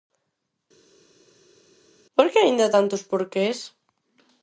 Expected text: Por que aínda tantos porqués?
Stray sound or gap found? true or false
false